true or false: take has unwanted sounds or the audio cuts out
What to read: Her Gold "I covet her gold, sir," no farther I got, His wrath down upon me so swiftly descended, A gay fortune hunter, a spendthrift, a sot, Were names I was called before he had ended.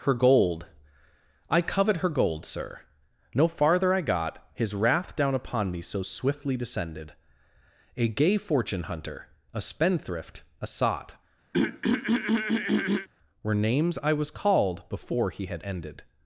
true